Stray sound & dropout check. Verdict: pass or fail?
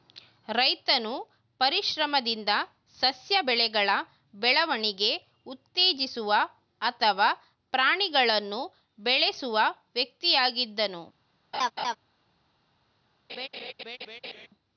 fail